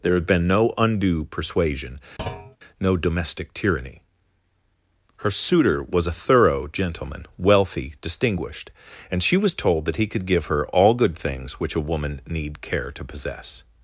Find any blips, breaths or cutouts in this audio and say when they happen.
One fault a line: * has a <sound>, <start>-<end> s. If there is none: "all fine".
* has a thud, 2.2-2.6 s